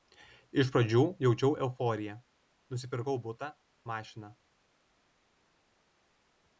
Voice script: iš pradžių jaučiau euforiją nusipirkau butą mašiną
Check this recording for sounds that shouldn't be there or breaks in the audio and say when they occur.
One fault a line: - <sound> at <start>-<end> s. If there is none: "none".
none